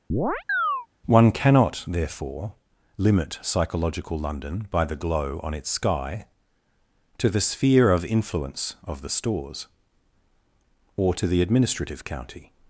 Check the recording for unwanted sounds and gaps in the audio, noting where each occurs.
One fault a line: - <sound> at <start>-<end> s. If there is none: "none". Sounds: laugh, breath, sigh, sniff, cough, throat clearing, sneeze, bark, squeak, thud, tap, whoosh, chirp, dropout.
- chirp at 0.1-0.9 s